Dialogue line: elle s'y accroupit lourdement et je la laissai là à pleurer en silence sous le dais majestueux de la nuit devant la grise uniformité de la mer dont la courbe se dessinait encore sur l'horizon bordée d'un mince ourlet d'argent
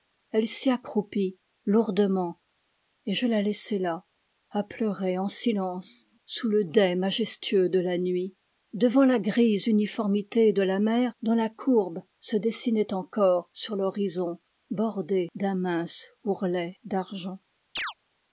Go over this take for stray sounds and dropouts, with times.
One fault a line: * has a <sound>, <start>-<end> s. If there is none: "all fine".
* has a chirp, 17.8-17.9 s